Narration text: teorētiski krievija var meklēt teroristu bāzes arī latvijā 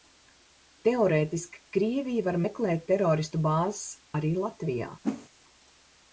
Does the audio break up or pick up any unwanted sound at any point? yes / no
yes